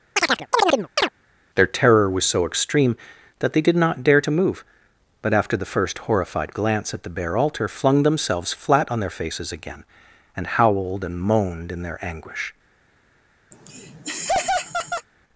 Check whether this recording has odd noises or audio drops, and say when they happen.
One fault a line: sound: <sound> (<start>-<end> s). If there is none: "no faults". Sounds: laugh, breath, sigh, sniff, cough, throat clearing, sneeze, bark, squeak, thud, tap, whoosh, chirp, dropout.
sound: chirp (0.2-1.1 s)
sound: laugh (13.5-15.1 s)